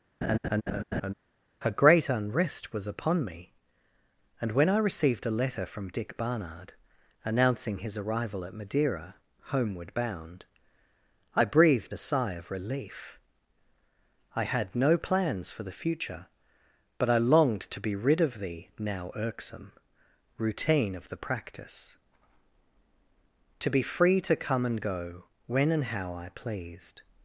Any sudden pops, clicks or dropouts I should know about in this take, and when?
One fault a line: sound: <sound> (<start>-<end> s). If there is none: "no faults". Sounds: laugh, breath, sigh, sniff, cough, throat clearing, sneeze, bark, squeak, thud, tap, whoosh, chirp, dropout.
sound: laugh (0.2-1.1 s)